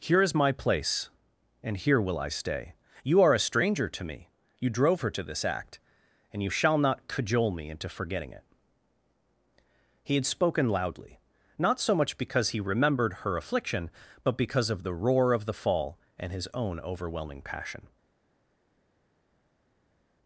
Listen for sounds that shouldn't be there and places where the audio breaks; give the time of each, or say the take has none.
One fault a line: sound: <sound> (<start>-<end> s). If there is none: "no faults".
no faults